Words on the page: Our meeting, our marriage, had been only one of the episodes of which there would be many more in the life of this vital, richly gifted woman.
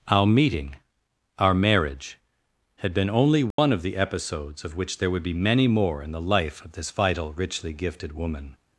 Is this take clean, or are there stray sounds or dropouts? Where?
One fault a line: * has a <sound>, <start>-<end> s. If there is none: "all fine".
* has a dropout, 3.5-3.6 s